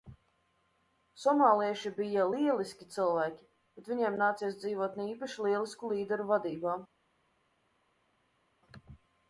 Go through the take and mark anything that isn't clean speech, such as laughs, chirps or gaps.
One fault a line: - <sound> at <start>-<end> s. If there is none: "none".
none